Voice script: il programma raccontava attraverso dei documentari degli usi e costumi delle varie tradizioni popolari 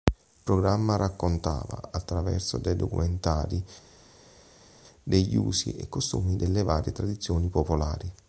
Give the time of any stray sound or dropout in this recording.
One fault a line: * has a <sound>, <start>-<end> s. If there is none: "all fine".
all fine